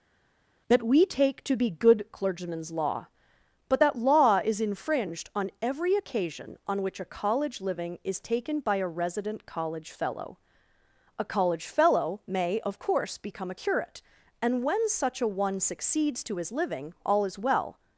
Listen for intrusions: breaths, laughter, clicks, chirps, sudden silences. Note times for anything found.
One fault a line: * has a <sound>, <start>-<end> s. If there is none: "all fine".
all fine